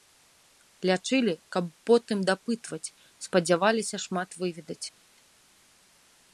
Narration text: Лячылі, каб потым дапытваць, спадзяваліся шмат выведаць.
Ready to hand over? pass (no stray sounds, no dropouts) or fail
pass